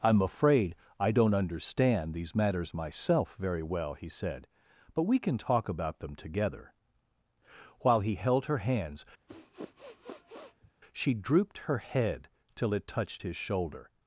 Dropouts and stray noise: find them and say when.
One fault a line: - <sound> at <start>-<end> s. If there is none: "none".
- sniff at 9.3-10.7 s